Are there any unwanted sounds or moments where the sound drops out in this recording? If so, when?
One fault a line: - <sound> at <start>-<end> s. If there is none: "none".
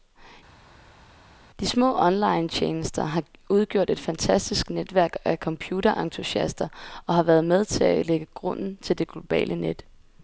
none